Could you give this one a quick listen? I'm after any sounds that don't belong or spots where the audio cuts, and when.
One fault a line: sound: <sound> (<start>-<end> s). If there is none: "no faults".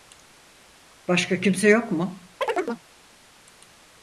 sound: chirp (2.4-2.8 s)